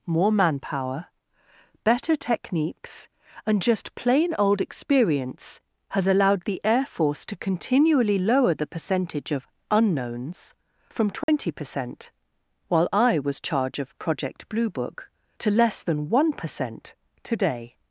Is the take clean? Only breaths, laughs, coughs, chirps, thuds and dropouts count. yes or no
no